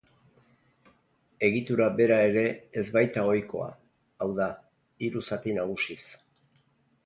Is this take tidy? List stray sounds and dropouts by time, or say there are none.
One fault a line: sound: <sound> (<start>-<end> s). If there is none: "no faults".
no faults